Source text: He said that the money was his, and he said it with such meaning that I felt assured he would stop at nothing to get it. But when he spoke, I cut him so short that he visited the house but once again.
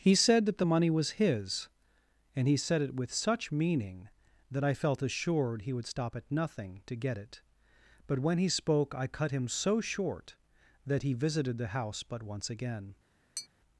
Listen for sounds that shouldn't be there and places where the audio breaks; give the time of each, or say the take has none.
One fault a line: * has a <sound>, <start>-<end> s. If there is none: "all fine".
* has a tap, 13.4-13.5 s